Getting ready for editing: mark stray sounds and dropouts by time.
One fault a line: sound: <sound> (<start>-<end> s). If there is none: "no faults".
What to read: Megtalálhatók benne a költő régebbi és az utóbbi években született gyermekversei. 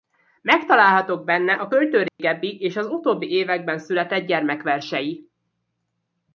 sound: dropout (2.1-2.2 s)